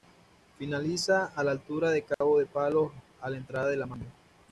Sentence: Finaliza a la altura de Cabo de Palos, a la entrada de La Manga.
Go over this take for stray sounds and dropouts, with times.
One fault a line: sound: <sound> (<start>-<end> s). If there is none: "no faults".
sound: dropout (2.1-2.2 s)